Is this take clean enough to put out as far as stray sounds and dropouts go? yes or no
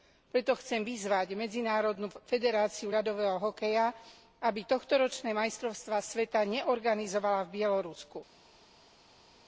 yes